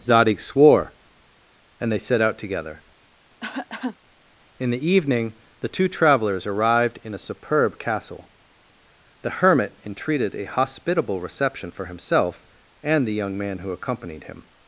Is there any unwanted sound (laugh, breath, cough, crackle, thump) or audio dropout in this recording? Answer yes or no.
yes